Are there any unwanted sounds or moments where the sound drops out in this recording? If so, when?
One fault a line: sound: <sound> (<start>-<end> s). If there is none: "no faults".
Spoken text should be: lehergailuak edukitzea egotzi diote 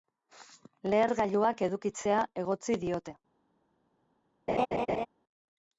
sound: laugh (4.5-5.1 s)